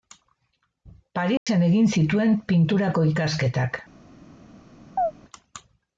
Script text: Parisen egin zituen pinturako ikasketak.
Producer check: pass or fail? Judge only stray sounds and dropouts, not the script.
fail